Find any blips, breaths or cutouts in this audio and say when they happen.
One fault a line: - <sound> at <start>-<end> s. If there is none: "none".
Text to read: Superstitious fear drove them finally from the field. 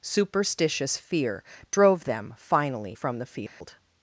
- dropout at 3.5-3.6 s